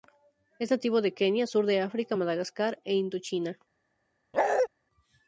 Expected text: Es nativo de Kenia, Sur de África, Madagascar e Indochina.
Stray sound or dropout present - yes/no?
yes